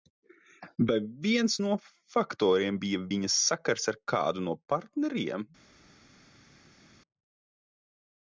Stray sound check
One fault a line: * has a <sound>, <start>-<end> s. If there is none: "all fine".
all fine